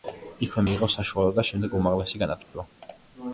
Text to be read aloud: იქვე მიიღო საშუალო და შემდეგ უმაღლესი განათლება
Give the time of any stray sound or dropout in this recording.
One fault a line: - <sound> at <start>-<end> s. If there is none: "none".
- dropout at 2.4-2.5 s